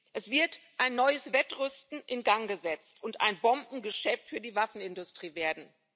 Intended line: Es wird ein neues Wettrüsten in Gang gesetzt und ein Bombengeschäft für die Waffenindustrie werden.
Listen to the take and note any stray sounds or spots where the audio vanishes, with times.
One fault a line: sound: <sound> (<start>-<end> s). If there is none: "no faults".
no faults